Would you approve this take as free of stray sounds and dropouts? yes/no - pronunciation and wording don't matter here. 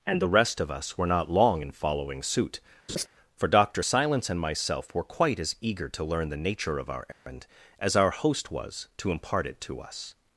no